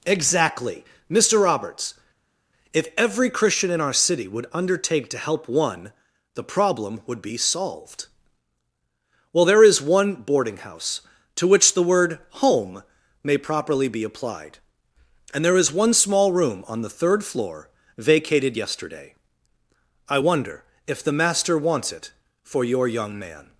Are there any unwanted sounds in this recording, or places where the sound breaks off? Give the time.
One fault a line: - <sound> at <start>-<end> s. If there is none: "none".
none